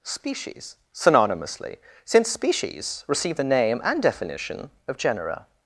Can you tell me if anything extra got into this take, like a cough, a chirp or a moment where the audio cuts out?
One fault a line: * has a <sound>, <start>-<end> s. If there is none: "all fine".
all fine